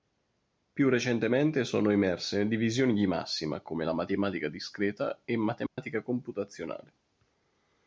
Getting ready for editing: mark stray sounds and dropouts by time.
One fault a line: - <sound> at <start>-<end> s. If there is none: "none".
- dropout at 5.7-5.8 s